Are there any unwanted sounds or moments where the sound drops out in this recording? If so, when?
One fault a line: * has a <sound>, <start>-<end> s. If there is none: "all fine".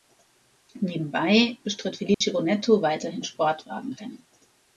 * has a dropout, 2.1-2.2 s